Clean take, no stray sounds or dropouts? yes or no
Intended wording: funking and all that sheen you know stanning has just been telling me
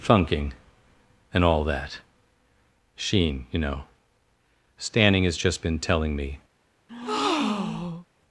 no